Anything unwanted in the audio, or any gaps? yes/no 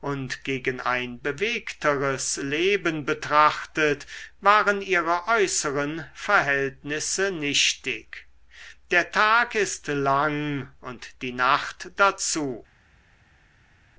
no